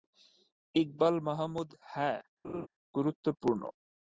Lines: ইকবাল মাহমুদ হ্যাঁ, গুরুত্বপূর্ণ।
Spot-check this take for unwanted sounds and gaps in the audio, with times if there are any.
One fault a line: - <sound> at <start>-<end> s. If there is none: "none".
- laugh at 2.4-2.7 s